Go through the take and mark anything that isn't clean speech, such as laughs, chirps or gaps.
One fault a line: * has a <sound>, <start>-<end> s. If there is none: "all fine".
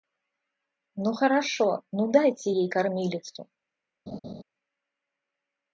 * has a laugh, 4.1-4.4 s